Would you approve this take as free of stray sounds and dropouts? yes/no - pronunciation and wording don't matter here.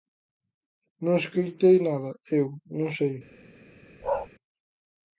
no